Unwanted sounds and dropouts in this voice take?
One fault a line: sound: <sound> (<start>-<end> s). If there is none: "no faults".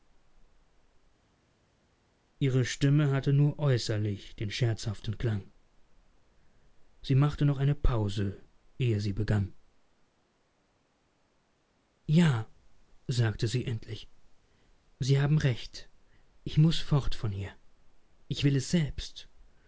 no faults